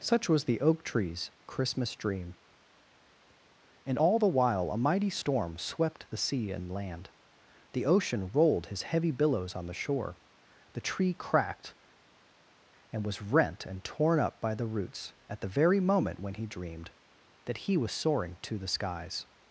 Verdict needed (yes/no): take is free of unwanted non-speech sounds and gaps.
yes